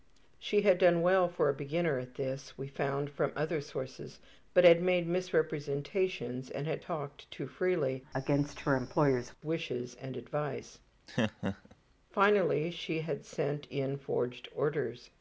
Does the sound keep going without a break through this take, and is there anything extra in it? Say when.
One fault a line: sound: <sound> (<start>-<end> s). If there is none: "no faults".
sound: laugh (11.1-11.8 s)